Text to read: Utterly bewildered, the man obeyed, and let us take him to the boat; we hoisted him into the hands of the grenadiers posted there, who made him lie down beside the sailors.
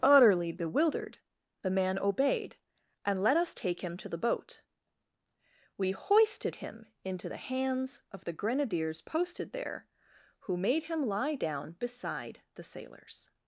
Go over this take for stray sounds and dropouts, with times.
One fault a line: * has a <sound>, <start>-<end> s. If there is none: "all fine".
all fine